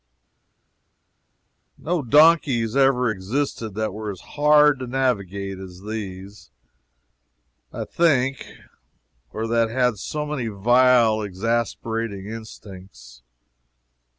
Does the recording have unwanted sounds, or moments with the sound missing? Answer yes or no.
no